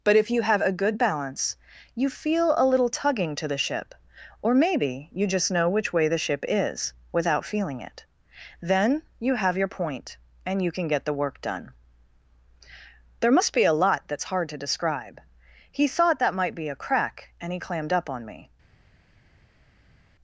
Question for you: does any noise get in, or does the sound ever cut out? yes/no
no